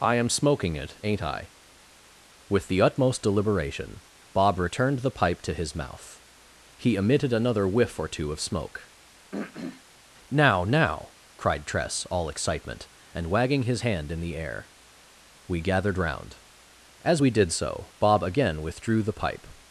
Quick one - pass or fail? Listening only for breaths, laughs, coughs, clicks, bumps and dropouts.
fail